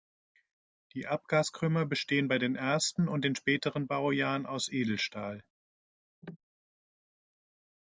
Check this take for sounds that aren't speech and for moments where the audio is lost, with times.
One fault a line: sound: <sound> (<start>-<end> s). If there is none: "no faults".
sound: cough (6.2-6.4 s)